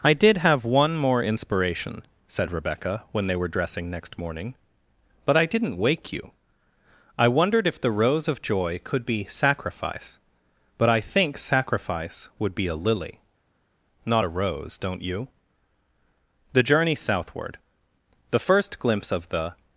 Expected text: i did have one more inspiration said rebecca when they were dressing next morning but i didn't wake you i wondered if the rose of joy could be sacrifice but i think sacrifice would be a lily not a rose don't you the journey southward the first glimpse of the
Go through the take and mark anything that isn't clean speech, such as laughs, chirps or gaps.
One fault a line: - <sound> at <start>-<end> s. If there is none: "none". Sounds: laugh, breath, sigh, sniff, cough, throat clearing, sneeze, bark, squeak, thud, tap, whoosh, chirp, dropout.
none